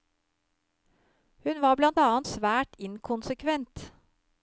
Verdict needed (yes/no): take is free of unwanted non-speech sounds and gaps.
yes